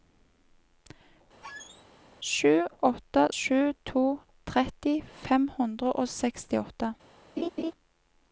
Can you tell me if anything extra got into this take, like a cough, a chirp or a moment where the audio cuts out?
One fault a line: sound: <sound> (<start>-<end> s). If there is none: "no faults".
sound: squeak (1.4-1.9 s)
sound: laugh (7.4-7.7 s)